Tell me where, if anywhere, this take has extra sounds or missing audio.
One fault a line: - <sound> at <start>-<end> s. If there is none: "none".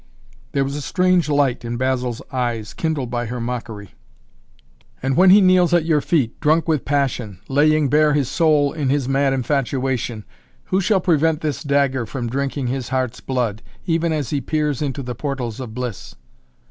none